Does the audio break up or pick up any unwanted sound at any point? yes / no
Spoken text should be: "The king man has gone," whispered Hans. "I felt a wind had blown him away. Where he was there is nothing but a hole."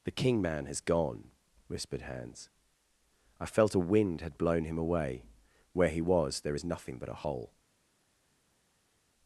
no